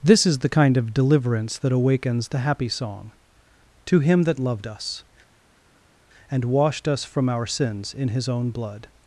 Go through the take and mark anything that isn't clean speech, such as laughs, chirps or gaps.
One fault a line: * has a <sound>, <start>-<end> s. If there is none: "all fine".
all fine